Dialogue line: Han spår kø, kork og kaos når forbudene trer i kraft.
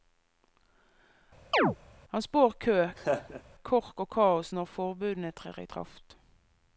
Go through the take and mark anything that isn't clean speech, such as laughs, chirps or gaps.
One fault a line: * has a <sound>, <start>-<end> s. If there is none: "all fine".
* has a chirp, 1.5-1.8 s
* has a laugh, 3.0-3.4 s